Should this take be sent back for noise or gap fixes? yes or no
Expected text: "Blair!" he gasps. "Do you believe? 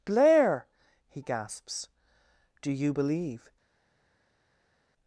no